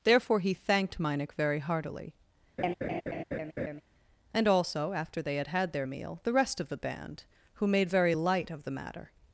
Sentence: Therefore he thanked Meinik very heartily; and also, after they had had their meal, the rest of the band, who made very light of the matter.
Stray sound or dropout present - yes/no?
yes